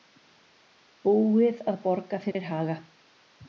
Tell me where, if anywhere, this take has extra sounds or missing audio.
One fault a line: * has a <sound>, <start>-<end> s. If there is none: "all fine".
* has a dropout, 2.3-2.3 s